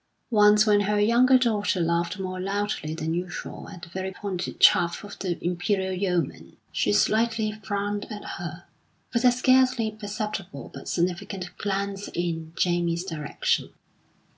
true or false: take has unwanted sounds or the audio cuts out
false